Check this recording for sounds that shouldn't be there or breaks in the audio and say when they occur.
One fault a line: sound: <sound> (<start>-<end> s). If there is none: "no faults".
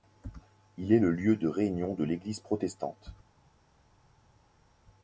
no faults